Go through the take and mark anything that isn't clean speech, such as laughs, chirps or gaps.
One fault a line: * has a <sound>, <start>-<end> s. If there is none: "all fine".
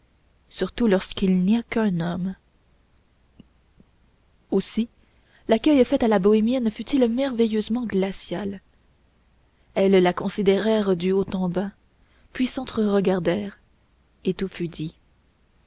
all fine